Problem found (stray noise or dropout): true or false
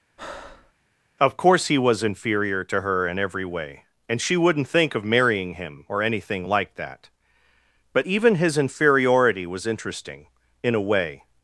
true